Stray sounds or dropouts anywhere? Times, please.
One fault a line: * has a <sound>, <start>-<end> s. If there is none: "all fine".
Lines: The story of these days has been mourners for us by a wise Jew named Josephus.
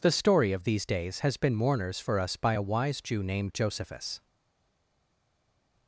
all fine